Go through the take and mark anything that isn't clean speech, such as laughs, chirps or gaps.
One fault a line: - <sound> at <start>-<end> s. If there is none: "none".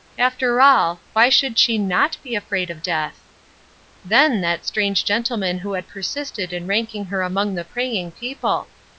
none